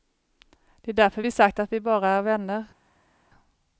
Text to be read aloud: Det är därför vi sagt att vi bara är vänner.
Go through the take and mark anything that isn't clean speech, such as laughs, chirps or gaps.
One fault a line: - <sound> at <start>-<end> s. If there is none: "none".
none